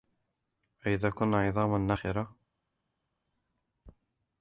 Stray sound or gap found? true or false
false